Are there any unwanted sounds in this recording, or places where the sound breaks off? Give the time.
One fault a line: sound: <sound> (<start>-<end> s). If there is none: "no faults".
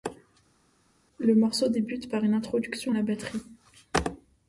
no faults